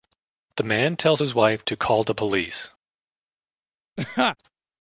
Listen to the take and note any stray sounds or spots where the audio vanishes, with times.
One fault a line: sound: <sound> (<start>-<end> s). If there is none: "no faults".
sound: laugh (4.0-4.4 s)